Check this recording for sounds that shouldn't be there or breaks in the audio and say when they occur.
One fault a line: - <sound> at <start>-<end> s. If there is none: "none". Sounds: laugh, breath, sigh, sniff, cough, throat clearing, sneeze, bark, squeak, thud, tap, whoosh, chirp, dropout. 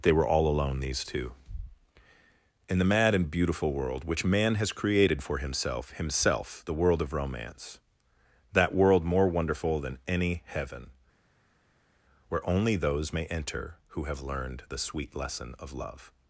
none